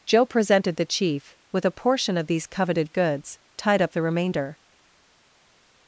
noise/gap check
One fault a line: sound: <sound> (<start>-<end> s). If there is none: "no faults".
no faults